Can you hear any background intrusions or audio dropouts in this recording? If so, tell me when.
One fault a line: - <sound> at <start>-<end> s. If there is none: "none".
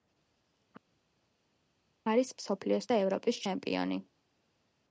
none